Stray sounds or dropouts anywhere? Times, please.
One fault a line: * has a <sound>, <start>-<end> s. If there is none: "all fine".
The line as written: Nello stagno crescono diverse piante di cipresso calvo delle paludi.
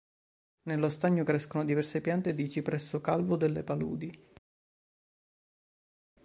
all fine